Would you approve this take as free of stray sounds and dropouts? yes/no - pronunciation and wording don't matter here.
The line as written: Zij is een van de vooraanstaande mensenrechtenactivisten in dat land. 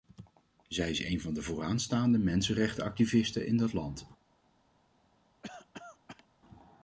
no